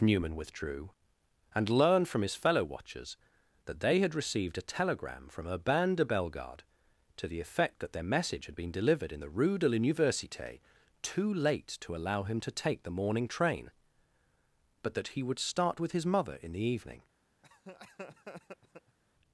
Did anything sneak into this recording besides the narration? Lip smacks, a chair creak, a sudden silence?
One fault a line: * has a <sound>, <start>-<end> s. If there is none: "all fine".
* has a laugh, 17.4-19.0 s